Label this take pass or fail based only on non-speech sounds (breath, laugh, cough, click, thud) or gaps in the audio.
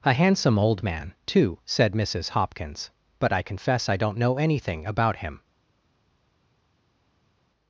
pass